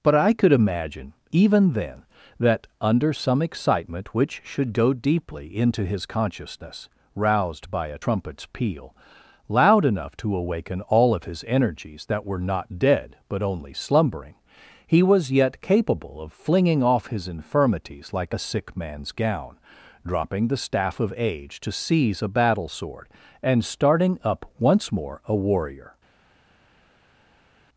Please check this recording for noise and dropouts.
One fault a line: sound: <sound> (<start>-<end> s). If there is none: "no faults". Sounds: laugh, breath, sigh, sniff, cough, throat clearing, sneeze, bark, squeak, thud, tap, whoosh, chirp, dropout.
no faults